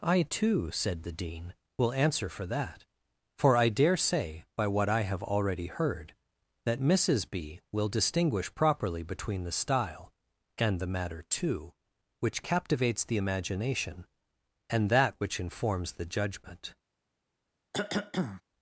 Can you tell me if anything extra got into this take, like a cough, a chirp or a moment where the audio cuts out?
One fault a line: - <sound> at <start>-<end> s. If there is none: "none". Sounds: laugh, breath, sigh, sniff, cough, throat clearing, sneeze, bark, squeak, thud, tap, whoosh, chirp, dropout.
- cough at 17.7-18.4 s